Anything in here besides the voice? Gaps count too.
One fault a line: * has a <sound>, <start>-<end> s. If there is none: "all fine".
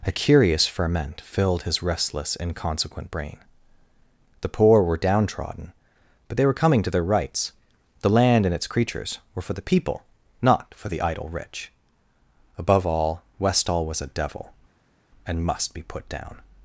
all fine